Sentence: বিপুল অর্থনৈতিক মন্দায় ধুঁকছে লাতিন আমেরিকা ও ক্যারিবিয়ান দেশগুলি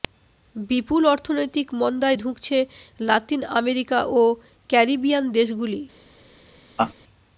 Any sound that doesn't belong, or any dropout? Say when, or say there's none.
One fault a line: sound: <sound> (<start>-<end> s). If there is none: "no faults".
sound: laugh (6.8-6.9 s)